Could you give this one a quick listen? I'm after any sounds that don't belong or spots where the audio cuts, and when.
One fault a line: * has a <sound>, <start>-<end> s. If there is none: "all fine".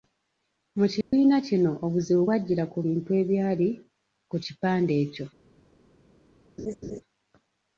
* has a dropout, 1.0-1.1 s
* has a laugh, 6.6-7.0 s